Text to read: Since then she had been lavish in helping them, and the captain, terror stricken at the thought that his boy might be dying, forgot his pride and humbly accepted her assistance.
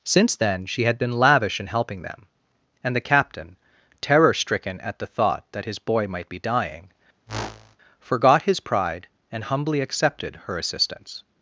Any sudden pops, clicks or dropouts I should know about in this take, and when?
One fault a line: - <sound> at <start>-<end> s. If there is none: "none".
- whoosh at 7.3-7.8 s